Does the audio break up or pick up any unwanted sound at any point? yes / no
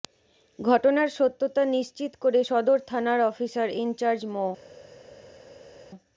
no